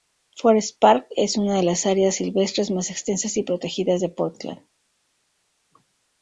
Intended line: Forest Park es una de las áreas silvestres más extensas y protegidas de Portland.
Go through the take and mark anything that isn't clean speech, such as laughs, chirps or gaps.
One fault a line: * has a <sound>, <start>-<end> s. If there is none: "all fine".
all fine